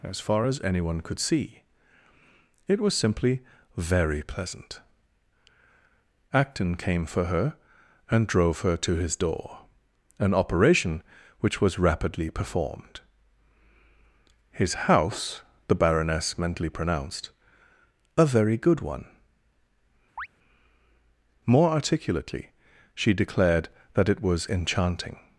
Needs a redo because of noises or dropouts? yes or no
yes